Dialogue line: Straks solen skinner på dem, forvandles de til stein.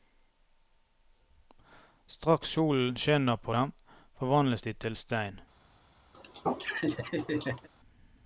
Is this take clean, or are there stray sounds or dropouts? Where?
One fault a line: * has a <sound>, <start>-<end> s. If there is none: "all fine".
* has a laugh, 6.1-7.7 s